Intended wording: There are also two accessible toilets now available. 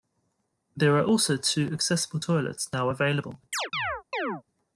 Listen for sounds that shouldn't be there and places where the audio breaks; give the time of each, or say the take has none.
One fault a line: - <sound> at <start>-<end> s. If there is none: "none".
- chirp at 3.5-4.4 s